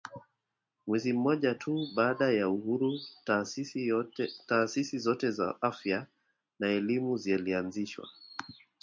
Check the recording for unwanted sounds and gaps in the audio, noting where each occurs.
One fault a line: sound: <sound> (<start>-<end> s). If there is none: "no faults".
no faults